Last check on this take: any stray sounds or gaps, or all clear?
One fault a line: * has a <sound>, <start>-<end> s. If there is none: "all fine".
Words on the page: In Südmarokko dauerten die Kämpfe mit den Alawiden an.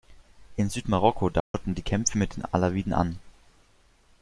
* has a dropout, 1.4-1.5 s